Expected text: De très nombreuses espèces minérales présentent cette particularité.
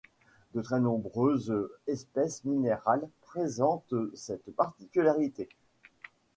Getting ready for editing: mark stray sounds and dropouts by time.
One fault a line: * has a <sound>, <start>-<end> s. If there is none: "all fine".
all fine